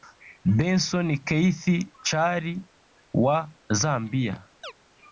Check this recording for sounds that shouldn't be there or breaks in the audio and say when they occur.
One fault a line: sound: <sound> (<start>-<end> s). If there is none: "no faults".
sound: chirp (4.6-4.7 s)